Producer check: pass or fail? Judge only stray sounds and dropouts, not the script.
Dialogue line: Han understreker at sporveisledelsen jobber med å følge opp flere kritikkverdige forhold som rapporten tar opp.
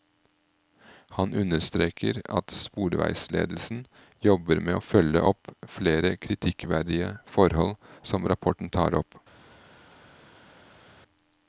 pass